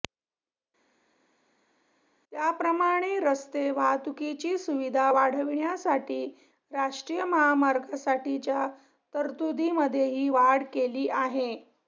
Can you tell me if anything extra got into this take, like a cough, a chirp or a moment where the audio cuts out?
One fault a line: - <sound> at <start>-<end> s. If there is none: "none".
none